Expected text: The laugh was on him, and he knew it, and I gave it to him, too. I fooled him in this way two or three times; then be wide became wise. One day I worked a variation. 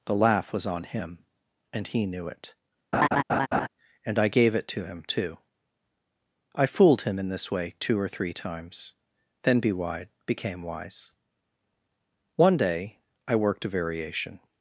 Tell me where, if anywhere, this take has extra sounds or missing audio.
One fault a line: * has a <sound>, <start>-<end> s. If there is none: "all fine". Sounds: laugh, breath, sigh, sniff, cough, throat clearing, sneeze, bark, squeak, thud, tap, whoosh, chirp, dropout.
* has a laugh, 2.9-3.7 s